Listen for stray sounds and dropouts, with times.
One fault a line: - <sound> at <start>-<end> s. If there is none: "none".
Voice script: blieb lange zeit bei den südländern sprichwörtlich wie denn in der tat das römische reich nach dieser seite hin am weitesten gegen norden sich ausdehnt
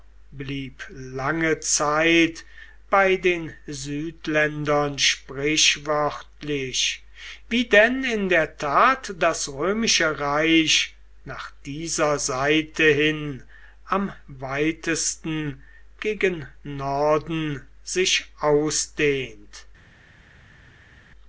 none